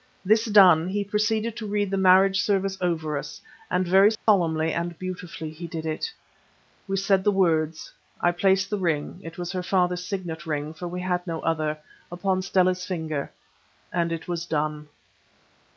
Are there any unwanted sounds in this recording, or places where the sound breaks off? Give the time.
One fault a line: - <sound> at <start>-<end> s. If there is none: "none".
- dropout at 4.2-4.3 s